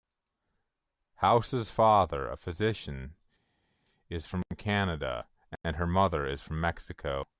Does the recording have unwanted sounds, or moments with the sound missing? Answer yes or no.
no